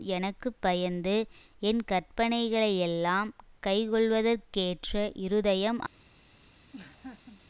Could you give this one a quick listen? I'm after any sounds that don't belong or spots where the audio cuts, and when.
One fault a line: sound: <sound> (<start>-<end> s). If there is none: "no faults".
sound: laugh (6.7-7.4 s)